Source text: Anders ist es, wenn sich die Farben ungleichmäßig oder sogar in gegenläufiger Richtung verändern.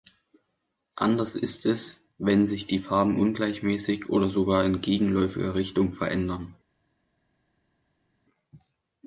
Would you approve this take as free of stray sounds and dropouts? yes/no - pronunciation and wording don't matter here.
yes